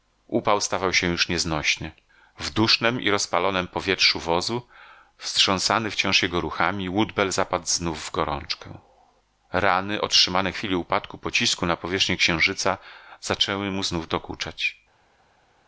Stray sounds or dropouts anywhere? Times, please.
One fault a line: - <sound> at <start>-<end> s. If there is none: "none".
none